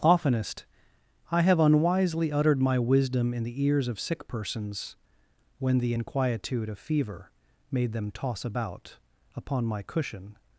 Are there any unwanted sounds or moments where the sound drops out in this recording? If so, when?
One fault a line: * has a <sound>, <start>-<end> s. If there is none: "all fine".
all fine